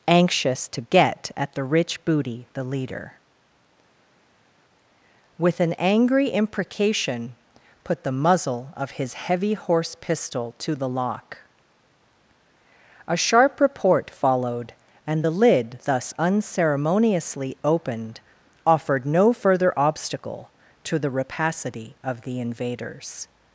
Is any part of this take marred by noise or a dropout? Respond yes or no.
no